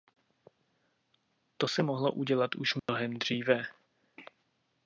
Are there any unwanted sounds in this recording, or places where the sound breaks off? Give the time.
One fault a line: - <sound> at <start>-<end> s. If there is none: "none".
- dropout at 2.8-2.9 s